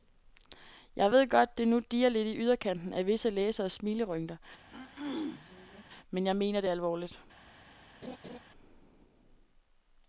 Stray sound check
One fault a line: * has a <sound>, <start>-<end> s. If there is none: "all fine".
* has a throat clearing, 4.7-5.8 s
* has a laugh, 8.0-8.4 s